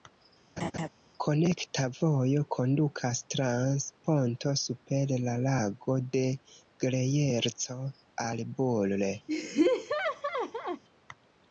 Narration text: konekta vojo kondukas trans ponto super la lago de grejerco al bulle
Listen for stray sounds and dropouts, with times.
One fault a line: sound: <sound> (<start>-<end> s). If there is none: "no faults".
sound: laugh (0.6-0.9 s)
sound: laugh (9.3-10.8 s)